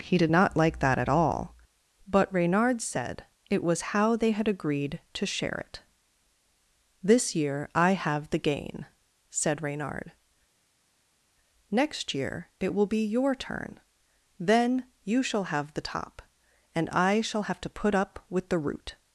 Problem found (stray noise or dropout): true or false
false